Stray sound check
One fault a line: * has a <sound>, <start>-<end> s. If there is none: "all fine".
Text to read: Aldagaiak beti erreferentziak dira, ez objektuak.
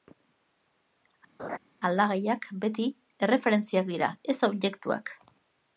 * has a laugh, 1.4-1.6 s